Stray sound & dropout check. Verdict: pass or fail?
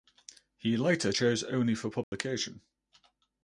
fail